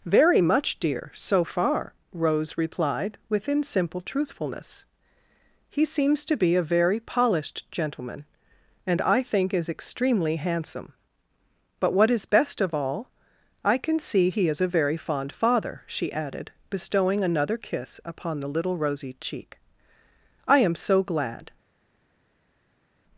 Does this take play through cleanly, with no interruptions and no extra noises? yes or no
yes